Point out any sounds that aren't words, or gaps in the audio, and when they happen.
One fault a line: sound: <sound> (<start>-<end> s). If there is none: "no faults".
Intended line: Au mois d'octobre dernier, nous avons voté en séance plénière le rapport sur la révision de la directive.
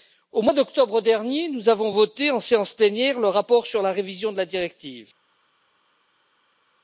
no faults